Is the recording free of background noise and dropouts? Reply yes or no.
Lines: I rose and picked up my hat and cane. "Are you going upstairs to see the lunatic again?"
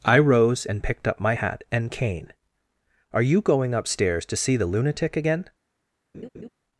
no